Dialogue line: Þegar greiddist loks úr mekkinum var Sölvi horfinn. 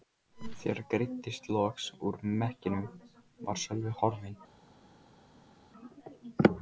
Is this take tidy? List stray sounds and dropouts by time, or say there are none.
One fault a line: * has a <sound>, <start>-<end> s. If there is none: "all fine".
all fine